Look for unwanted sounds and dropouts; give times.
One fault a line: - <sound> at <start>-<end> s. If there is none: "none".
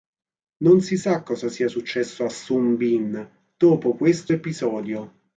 none